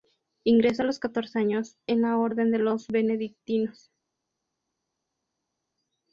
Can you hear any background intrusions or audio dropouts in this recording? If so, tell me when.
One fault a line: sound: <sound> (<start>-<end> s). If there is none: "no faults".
no faults